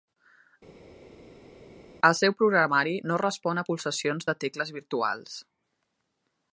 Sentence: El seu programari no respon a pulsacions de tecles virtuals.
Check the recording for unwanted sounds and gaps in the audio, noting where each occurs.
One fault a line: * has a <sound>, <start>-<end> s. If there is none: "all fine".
all fine